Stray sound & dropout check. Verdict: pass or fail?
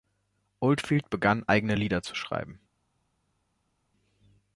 pass